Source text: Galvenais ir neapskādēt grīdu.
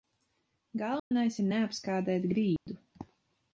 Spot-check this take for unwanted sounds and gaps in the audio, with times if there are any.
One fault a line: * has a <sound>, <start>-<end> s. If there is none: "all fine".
* has a dropout, 1.0-1.1 s
* has a dropout, 2.6-2.7 s